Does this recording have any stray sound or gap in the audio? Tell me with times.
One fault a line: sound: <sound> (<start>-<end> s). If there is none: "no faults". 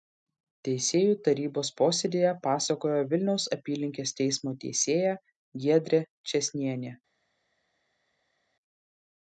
no faults